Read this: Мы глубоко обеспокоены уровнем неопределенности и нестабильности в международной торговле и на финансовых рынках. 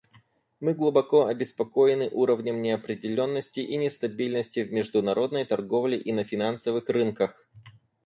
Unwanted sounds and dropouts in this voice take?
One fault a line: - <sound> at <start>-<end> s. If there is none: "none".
none